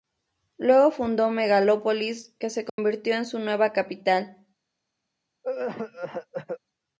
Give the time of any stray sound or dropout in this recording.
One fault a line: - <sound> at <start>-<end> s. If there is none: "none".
- dropout at 2.7-2.8 s
- cough at 5.4-6.6 s